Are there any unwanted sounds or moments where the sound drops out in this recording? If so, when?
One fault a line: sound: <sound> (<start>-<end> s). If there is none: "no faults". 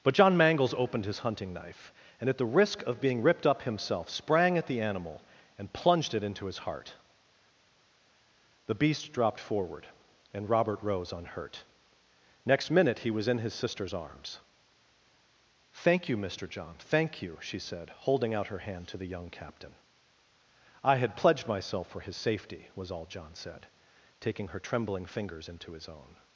no faults